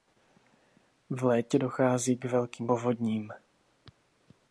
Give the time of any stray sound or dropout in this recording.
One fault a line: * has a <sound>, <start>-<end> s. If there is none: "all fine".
all fine